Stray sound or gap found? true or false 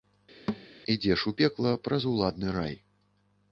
true